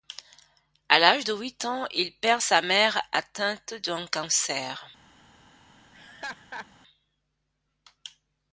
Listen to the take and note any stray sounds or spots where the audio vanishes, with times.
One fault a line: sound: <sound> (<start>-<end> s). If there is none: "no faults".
sound: laugh (5.9-6.7 s)